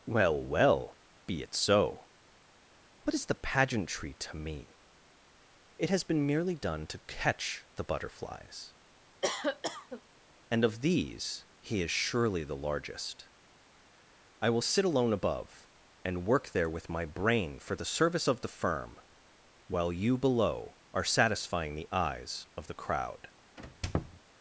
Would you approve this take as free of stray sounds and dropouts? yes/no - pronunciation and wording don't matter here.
no